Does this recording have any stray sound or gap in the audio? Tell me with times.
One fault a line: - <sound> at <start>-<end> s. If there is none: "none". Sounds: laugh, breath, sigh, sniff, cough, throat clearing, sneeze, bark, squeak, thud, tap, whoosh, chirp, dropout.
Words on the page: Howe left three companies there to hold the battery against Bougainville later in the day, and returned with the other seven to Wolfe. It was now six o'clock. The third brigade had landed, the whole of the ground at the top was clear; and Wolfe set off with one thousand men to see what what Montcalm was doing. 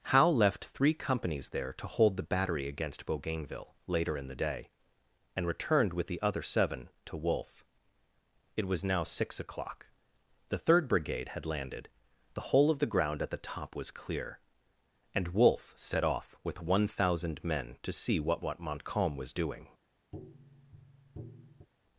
- tap at 20.1-21.7 s